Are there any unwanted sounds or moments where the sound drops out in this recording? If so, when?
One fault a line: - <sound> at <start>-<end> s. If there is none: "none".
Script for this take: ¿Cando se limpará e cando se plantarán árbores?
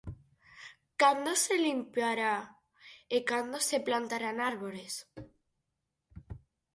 none